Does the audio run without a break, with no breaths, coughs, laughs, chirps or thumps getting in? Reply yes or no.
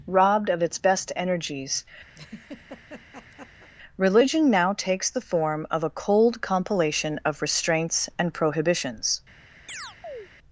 no